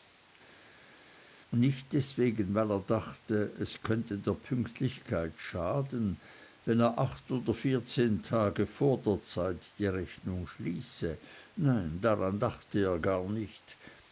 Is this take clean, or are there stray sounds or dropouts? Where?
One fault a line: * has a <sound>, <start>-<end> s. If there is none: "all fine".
all fine